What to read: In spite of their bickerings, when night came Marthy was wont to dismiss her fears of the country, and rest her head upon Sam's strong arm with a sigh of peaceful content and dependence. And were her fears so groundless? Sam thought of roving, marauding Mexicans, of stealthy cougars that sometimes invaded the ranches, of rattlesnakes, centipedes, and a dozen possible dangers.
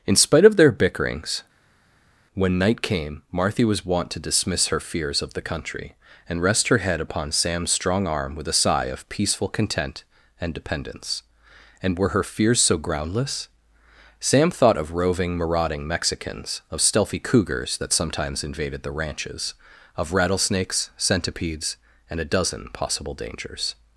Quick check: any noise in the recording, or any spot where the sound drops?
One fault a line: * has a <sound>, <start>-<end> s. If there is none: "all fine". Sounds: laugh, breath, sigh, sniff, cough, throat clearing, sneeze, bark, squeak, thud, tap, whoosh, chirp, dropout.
all fine